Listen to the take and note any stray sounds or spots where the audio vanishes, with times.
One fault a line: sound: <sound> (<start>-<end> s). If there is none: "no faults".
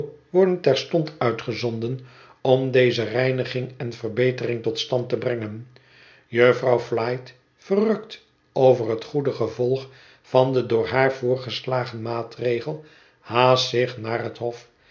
no faults